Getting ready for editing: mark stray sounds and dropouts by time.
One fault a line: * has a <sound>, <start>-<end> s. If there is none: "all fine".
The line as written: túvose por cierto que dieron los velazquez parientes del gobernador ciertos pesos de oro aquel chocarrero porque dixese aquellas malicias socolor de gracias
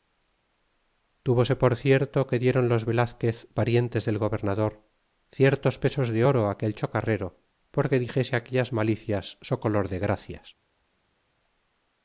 all fine